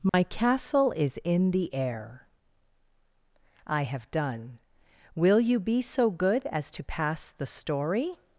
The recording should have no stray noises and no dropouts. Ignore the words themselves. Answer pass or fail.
fail